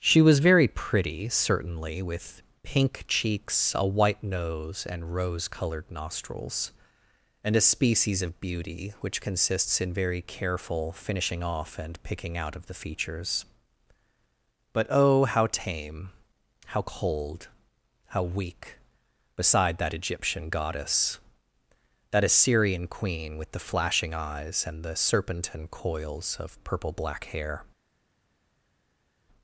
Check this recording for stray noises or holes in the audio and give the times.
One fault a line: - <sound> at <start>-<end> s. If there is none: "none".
none